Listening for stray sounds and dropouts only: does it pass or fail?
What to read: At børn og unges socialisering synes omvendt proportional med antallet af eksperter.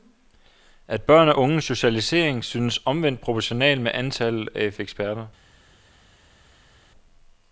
pass